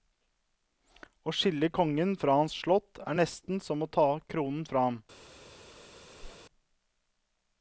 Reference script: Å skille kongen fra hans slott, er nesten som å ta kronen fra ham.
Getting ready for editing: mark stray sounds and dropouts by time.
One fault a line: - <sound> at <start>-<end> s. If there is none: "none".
- whoosh at 6.2-6.4 s